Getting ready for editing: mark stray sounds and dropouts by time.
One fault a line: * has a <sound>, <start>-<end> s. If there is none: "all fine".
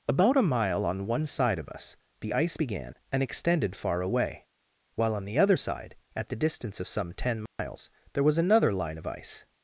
* has a dropout, 7.5-7.6 s